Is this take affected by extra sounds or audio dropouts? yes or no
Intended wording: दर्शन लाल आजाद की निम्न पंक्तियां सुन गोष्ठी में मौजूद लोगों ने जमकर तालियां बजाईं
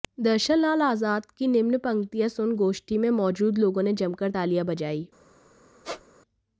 yes